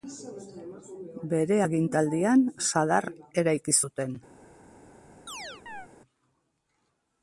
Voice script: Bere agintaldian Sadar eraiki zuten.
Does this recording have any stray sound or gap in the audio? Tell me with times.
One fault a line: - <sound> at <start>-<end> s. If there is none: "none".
- chirp at 5.3-5.9 s